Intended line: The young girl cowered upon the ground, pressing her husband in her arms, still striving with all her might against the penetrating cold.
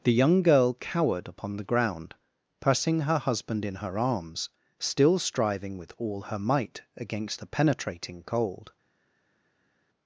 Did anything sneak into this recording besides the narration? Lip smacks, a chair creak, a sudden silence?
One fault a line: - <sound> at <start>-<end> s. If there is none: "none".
none